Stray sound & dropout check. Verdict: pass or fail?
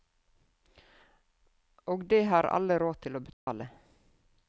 fail